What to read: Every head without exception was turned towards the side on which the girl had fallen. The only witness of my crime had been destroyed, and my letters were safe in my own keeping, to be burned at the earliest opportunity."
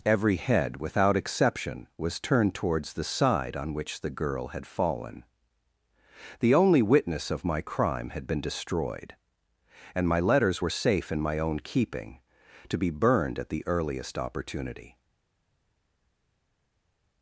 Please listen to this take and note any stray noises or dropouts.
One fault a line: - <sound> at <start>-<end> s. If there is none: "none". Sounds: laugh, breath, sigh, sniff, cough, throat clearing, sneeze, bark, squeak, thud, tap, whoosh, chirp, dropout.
none